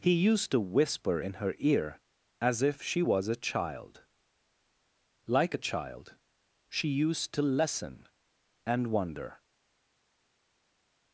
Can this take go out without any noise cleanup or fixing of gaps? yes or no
yes